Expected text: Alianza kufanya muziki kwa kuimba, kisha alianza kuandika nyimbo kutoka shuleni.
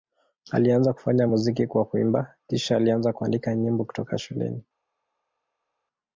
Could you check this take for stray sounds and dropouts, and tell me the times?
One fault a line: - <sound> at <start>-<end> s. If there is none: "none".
none